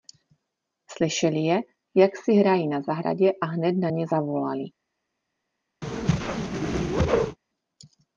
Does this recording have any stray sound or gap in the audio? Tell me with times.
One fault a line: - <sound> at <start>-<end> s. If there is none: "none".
- whoosh at 5.8-7.4 s